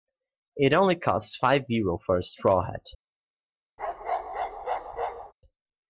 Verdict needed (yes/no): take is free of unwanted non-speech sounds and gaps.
no